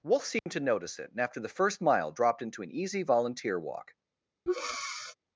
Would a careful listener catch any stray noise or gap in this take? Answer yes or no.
yes